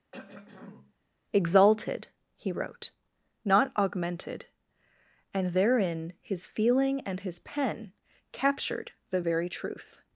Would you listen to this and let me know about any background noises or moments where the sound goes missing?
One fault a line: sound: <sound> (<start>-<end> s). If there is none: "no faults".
sound: throat clearing (0.1-0.9 s)